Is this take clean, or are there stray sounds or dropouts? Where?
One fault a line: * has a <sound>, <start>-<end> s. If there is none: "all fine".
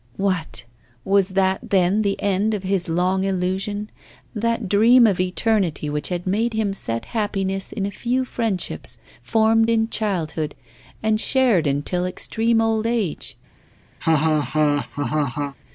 * has a laugh, 14.0-15.6 s